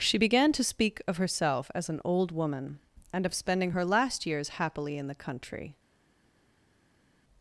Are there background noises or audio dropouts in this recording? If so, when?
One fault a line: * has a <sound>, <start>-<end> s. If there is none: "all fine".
all fine